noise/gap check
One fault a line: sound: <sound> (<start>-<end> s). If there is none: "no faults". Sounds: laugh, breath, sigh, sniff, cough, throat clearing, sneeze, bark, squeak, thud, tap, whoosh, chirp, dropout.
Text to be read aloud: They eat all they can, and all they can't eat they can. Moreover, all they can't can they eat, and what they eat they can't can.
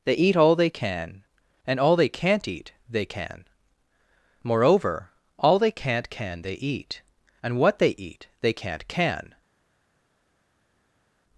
no faults